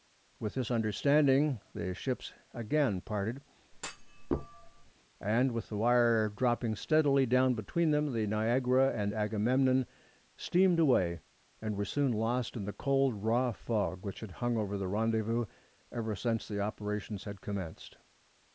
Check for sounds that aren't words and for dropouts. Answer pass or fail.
fail